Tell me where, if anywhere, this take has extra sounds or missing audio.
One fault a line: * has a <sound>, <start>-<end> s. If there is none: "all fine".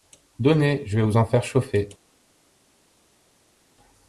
all fine